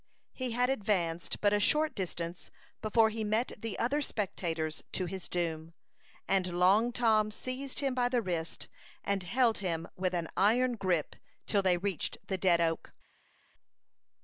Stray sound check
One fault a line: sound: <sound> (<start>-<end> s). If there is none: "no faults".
no faults